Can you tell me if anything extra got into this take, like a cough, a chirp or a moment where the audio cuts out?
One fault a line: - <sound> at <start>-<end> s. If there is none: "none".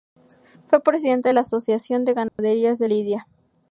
- dropout at 2.3-2.4 s